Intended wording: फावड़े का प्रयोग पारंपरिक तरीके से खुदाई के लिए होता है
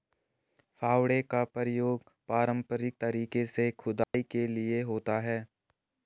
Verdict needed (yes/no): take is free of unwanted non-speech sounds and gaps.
no